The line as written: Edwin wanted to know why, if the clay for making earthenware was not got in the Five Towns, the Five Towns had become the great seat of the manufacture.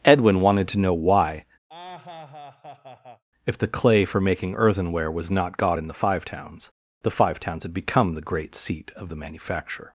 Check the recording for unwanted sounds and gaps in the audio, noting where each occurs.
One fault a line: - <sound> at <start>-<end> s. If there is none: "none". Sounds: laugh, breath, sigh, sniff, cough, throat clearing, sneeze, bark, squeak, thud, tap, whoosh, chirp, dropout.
- laugh at 1.7-3.2 s